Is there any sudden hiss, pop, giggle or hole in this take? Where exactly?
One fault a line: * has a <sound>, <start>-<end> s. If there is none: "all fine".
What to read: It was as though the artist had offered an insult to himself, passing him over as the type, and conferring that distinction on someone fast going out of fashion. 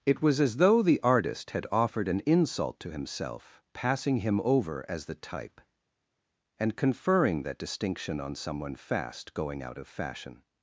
all fine